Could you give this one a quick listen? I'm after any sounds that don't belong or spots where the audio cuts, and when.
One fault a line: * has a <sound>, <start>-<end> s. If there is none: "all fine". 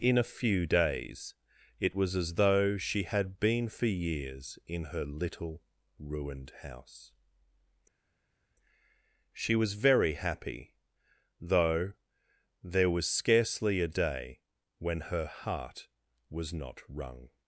all fine